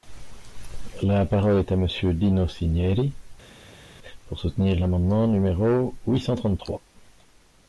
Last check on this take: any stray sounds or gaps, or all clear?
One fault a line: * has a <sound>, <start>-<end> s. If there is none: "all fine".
all fine